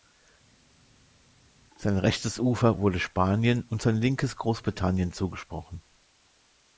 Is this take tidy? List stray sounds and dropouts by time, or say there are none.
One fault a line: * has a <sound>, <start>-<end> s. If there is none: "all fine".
all fine